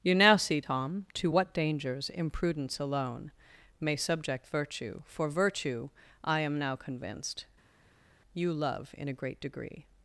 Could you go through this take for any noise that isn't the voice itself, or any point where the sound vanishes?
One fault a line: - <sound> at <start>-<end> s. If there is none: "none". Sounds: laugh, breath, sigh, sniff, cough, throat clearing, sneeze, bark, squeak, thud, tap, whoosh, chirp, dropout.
none